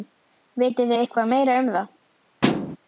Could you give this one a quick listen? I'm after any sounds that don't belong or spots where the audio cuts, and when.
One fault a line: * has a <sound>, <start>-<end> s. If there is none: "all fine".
* has a thud, 2.4-2.8 s